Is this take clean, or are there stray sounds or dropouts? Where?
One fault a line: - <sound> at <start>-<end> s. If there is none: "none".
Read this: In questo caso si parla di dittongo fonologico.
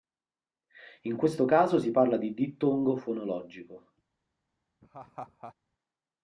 - laugh at 4.8-5.5 s